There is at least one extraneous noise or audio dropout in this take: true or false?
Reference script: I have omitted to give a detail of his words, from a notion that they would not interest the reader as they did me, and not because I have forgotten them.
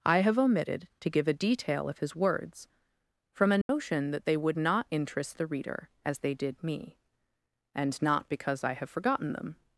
true